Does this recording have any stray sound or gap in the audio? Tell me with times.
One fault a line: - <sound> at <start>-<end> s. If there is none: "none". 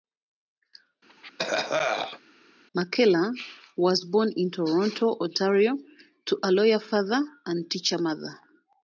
- cough at 1.1-2.2 s